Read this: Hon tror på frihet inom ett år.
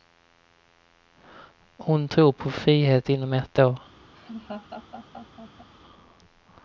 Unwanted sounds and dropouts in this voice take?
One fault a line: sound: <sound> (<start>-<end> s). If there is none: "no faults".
sound: laugh (4.1-5.7 s)